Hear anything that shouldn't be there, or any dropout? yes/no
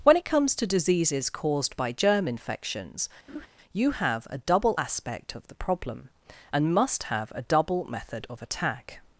yes